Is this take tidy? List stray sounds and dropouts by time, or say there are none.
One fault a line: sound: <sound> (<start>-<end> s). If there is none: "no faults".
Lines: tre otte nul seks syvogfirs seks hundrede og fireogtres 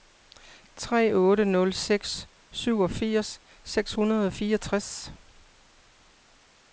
no faults